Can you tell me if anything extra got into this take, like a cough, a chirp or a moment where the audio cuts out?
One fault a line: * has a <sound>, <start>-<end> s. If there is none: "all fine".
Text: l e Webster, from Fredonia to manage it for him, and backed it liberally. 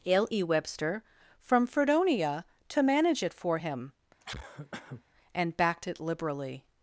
* has a cough, 4.2-5.0 s